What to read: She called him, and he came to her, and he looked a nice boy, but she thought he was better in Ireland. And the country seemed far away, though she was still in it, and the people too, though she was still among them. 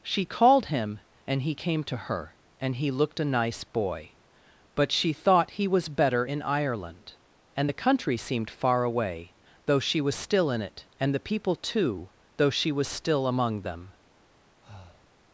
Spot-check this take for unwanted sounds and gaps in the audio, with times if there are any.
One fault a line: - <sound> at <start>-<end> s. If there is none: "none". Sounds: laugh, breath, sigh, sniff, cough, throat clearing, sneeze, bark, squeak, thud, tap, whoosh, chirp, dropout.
- breath at 14.6-15.1 s